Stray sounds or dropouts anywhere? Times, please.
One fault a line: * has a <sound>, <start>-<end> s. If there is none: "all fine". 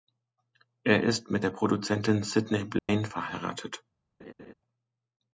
* has a dropout, 2.8-2.9 s
* has a laugh, 4.2-4.5 s